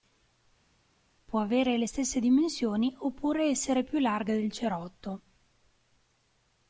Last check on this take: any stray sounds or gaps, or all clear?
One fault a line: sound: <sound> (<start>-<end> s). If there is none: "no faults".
no faults